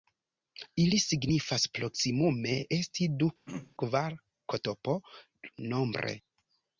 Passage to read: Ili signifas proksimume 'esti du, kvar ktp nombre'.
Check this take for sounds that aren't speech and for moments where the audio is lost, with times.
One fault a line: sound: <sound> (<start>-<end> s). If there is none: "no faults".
sound: throat clearing (3.5-3.8 s)